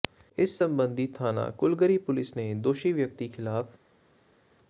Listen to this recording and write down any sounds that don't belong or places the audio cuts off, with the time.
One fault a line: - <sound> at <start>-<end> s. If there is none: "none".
none